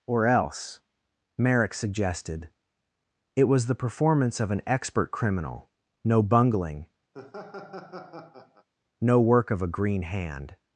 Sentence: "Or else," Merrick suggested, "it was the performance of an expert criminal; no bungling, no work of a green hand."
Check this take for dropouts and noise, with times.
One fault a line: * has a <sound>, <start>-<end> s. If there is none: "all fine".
* has a laugh, 7.1-8.7 s